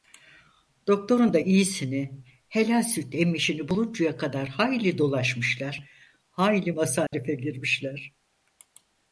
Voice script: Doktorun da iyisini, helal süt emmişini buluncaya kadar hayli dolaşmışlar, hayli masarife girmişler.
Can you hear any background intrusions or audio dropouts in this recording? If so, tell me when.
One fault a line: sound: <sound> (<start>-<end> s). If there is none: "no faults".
sound: dropout (7.1-7.1 s)